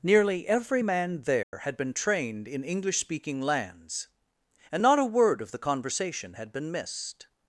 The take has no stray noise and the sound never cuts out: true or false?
false